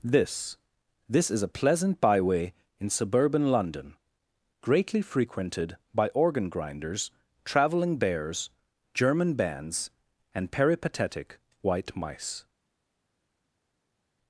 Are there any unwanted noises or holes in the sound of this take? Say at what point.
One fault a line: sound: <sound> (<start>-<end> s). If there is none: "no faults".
no faults